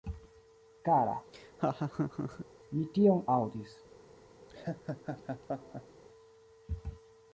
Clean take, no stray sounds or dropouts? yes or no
no